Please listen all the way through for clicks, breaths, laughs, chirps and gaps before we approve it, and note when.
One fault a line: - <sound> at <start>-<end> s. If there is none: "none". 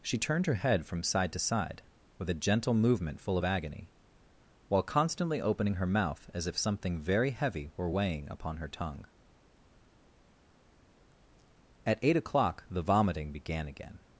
none